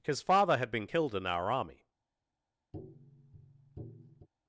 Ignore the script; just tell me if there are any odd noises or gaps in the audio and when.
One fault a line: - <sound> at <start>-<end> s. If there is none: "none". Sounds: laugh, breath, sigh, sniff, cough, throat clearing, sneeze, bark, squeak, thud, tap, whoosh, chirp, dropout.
- tap at 2.7-4.3 s